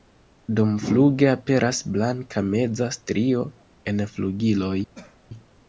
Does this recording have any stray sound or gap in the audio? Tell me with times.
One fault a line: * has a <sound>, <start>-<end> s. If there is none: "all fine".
* has a cough, 4.9-5.3 s